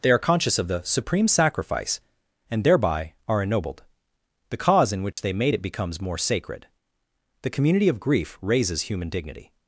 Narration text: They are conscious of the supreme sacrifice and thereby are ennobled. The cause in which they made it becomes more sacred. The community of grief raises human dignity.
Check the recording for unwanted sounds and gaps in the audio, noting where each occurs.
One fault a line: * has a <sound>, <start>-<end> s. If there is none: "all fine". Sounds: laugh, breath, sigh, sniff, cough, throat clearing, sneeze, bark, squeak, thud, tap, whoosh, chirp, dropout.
* has a dropout, 5.1-5.2 s